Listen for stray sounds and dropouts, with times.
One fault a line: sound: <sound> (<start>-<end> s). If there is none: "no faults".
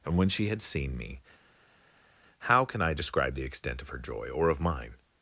no faults